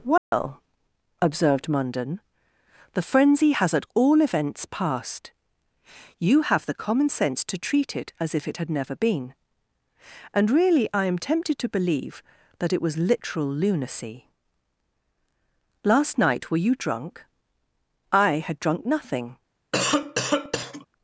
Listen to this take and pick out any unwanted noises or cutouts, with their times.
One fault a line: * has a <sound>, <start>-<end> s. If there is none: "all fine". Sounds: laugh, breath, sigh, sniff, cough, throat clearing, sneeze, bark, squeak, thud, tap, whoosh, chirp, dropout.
* has a dropout, 0.2-0.3 s
* has a cough, 19.7-20.9 s